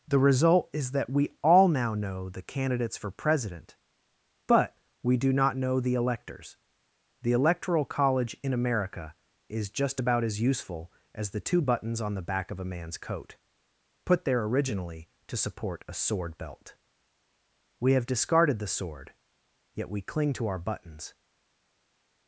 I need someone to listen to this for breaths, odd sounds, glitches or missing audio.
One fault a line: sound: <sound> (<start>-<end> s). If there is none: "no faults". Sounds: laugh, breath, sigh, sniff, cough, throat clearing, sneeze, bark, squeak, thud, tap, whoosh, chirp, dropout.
no faults